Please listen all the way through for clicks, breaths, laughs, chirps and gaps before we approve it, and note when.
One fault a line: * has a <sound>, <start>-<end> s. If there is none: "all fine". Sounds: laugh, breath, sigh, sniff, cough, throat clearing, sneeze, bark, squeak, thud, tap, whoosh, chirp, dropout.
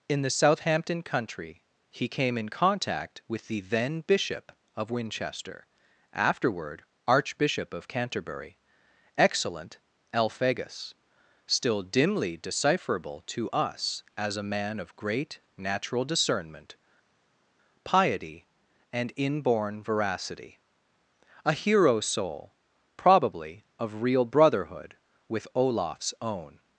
all fine